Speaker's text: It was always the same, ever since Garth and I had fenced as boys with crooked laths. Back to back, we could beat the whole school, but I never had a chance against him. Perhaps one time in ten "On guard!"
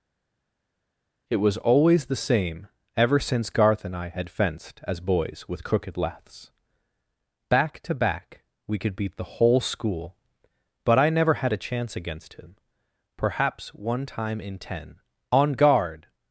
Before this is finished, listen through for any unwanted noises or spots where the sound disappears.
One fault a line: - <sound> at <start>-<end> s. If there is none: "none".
none